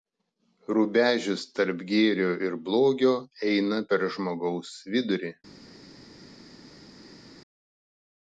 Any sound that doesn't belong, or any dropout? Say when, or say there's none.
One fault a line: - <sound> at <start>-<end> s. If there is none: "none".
none